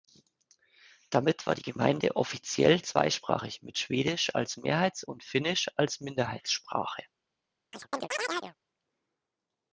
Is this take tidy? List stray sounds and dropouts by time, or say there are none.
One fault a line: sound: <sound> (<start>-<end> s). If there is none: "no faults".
sound: chirp (7.7-8.6 s)